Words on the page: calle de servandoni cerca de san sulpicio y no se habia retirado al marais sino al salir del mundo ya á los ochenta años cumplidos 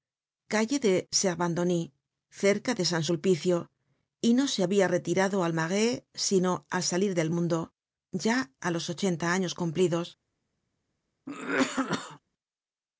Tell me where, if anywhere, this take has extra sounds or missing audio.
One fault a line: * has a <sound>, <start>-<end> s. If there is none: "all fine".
* has a cough, 11.3-12.2 s